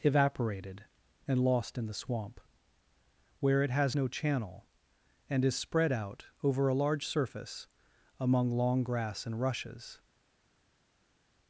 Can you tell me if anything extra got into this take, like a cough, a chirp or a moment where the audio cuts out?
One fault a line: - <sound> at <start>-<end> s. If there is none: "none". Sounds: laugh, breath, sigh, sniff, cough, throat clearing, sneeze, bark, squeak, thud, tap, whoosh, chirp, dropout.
none